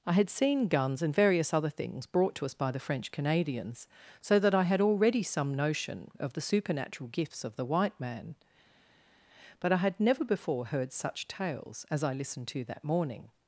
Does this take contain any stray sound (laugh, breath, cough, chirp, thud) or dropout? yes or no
no